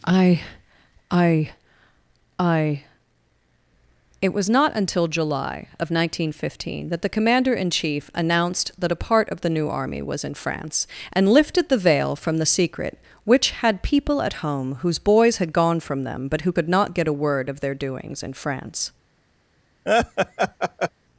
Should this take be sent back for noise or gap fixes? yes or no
yes